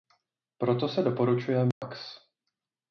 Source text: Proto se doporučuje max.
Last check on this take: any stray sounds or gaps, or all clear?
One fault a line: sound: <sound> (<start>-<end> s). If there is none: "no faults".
sound: dropout (1.7-1.8 s)